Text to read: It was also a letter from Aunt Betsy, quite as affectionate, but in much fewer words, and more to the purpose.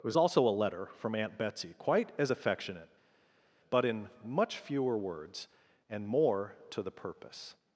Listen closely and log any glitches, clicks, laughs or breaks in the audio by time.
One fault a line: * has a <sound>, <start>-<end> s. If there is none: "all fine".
all fine